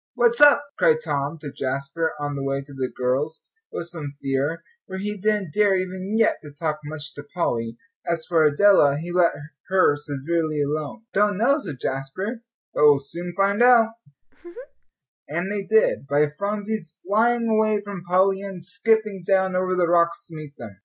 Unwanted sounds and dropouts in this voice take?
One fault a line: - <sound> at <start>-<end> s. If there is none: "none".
- laugh at 14.2-14.9 s